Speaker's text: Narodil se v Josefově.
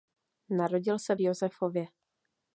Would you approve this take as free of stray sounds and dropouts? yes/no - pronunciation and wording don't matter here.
yes